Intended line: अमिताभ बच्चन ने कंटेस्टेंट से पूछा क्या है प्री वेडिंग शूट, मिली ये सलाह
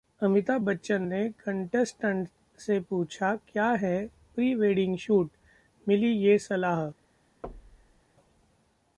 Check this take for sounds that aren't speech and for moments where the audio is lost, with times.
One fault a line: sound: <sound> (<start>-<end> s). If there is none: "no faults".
sound: thud (7.4-8.0 s)